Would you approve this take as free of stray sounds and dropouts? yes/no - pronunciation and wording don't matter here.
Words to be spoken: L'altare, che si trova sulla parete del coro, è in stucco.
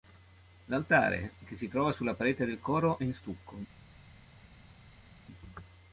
yes